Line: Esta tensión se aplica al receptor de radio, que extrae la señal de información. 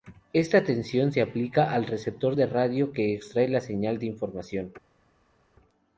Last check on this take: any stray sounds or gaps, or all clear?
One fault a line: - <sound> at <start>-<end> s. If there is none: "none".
none